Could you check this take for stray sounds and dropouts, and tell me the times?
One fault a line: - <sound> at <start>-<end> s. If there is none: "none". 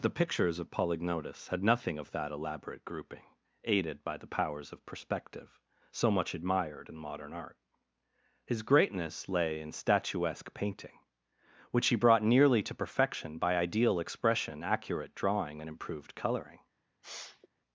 - sniff at 17.0-17.5 s